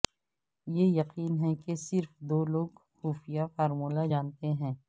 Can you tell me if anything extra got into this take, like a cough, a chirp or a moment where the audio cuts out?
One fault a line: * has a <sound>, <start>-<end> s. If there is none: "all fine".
all fine